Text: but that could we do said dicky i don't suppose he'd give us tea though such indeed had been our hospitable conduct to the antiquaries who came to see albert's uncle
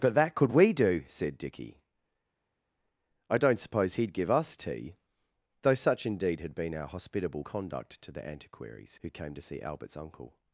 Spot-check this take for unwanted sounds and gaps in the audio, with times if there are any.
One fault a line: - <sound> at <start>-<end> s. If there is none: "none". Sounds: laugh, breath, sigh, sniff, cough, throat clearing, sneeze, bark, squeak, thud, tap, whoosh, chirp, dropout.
none